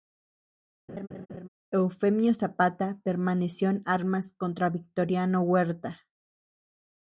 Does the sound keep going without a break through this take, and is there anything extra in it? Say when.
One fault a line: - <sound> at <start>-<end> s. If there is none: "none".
- laugh at 0.9-1.5 s